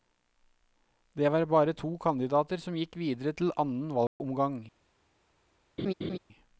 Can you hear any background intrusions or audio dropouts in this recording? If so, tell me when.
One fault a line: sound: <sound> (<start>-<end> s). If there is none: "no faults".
sound: dropout (4.1-4.2 s)
sound: laugh (5.8-6.2 s)